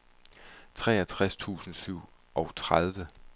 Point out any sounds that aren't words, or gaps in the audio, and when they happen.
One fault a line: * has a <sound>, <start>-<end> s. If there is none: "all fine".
all fine